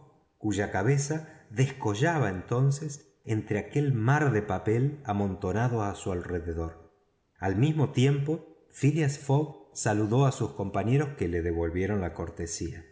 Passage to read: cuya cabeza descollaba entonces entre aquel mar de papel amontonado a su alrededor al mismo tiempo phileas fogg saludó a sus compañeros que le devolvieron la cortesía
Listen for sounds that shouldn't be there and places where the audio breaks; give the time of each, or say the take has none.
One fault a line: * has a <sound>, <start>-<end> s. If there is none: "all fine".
all fine